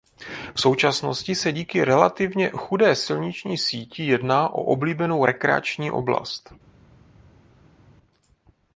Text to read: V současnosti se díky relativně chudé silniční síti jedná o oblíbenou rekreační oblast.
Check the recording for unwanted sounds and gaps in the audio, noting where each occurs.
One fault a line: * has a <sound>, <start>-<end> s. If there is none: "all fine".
all fine